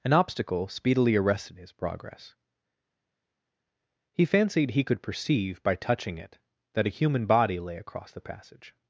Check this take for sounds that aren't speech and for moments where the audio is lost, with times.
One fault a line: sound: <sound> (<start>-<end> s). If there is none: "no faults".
no faults